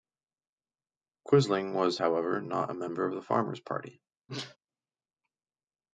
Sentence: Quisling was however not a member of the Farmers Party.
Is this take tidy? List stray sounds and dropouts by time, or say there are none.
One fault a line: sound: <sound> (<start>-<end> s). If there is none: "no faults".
sound: sneeze (4.3-4.6 s)